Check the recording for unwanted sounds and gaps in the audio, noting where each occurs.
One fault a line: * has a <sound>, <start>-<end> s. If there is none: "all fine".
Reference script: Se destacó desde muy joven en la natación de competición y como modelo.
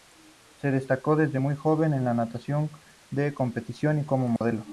* has a dropout, 4.4-4.4 s